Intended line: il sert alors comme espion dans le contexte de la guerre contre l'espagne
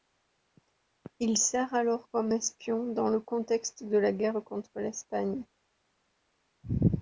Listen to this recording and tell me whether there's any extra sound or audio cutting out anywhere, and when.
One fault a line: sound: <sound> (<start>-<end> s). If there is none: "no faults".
no faults